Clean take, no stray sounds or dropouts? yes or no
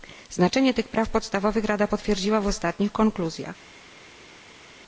yes